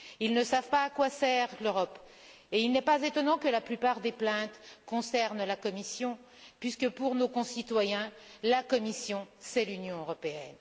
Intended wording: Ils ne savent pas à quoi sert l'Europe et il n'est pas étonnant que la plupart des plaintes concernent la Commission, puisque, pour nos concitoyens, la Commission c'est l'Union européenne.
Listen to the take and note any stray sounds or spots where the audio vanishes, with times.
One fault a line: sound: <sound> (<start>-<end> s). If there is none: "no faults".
no faults